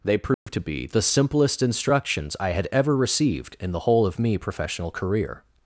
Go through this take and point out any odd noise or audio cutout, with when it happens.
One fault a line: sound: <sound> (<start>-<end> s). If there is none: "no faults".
sound: dropout (0.3-0.5 s)